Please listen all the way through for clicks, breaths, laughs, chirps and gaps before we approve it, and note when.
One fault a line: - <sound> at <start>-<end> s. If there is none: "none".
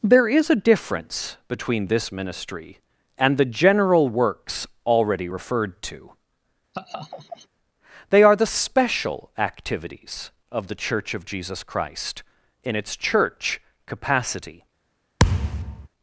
- laugh at 6.7-7.5 s
- thud at 15.2-15.9 s